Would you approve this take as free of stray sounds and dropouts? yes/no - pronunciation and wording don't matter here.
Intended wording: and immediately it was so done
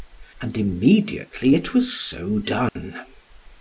no